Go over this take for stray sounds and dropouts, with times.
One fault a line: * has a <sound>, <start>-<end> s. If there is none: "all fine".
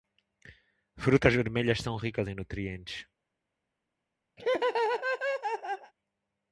* has a laugh, 4.4-5.9 s